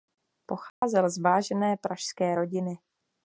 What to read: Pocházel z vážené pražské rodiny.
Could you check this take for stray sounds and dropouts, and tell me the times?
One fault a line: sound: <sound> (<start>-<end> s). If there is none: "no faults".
sound: dropout (0.7-0.8 s)